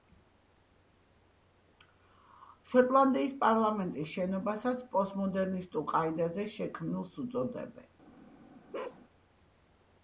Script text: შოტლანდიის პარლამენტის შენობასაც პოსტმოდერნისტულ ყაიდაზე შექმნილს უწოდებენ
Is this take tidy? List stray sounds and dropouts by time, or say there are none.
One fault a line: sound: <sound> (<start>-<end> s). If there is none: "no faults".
sound: bark (8.7-9.0 s)